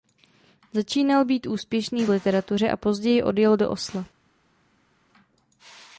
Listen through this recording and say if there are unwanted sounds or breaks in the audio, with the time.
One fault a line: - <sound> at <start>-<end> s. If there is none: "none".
none